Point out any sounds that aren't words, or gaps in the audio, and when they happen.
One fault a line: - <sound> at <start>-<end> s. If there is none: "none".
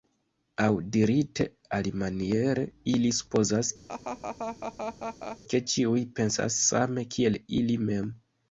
- laugh at 3.9-5.4 s